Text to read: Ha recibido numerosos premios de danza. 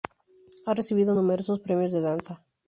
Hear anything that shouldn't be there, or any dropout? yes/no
no